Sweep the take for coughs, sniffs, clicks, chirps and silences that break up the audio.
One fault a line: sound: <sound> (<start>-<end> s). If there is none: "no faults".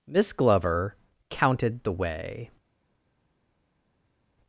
no faults